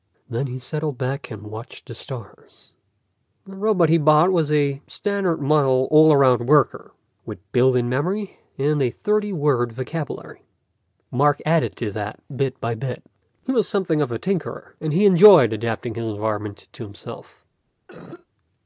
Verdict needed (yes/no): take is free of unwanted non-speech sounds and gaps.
no